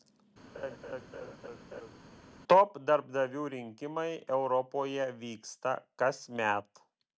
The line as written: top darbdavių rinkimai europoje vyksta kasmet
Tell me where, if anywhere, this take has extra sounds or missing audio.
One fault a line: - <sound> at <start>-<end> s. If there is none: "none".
- laugh at 0.5-2.0 s